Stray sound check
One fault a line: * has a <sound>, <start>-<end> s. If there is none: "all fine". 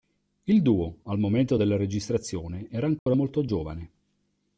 * has a dropout, 3.0-3.1 s